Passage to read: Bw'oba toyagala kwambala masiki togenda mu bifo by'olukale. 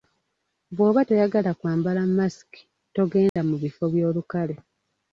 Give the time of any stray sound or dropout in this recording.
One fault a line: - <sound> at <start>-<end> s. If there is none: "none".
- dropout at 3.3-3.4 s